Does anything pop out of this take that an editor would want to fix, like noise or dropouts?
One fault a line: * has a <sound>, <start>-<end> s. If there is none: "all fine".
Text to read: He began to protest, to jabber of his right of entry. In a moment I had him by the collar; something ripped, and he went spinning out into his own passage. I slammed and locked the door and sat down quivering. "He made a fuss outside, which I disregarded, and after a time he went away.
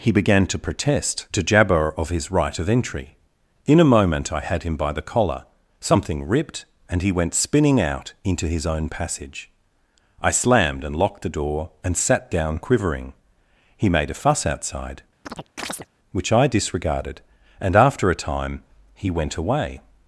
* has a chirp, 15.2-15.9 s